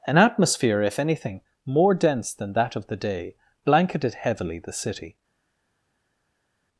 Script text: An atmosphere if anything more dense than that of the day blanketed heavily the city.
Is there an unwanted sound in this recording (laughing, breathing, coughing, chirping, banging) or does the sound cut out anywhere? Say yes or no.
no